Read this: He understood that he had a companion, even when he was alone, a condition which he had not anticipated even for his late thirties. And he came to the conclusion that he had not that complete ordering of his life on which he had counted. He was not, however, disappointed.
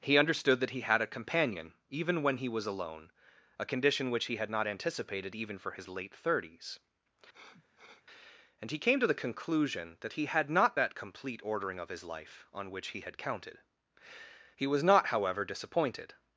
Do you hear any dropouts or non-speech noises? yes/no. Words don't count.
yes